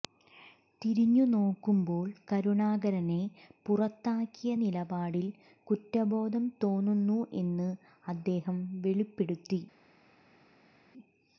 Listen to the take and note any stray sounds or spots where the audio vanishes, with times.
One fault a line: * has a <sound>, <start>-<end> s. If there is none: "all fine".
all fine